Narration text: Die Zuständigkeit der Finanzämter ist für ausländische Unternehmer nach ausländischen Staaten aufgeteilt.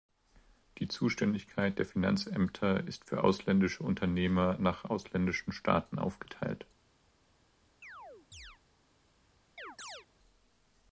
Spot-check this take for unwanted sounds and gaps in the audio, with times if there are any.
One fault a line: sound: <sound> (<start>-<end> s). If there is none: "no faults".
sound: chirp (7.8-8.6 s)
sound: chirp (9.6-10.1 s)